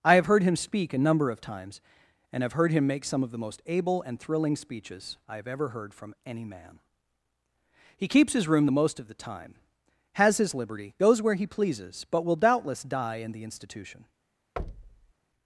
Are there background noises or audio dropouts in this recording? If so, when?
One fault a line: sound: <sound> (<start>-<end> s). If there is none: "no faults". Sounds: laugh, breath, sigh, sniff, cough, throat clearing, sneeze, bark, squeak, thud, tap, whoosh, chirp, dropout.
sound: thud (14.6-15.1 s)